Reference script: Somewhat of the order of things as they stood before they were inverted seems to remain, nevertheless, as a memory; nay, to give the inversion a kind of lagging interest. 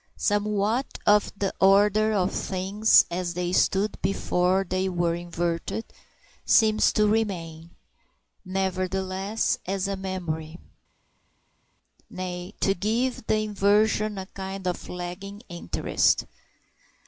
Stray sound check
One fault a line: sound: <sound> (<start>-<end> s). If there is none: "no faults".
no faults